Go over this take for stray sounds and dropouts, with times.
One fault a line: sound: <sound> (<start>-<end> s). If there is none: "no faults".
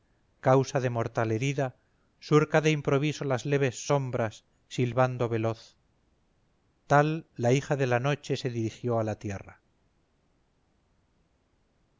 no faults